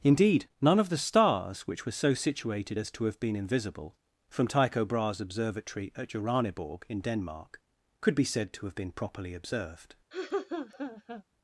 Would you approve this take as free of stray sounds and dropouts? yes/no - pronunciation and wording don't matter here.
no